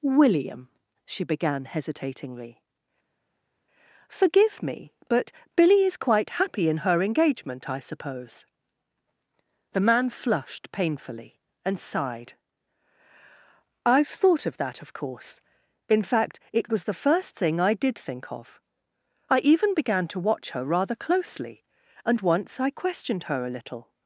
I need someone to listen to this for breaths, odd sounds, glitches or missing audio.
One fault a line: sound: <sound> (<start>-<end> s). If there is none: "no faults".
no faults